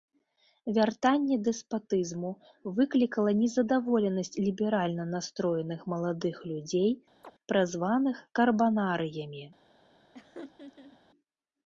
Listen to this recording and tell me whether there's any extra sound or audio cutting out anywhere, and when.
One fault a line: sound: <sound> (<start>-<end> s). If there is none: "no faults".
sound: chirp (7.2-7.3 s)
sound: laugh (10.1-11.0 s)